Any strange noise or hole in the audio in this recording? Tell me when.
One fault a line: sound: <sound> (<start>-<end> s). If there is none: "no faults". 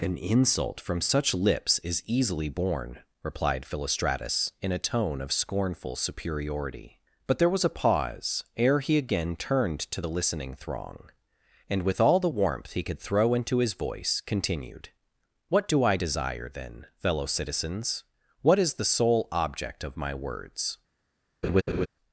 sound: laugh (21.4-21.9 s)